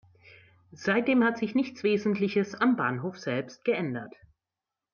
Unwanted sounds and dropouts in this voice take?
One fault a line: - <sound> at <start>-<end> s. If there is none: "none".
none